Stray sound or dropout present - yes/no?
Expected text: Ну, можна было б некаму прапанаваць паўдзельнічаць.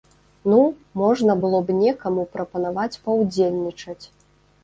no